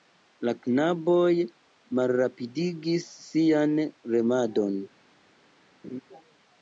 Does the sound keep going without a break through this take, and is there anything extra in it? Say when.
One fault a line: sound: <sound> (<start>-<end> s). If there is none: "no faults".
sound: laugh (5.8-6.0 s)